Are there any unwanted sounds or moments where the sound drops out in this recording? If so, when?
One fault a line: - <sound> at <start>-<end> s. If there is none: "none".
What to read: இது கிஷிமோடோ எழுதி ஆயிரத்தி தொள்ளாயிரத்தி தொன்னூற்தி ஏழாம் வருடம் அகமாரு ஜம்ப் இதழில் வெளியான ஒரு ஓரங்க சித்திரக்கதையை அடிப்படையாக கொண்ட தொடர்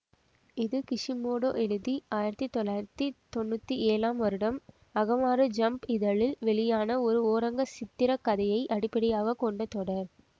none